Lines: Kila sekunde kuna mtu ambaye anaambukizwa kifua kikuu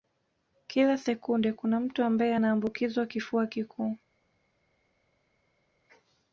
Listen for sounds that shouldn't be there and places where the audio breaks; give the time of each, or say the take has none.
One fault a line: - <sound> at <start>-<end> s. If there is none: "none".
none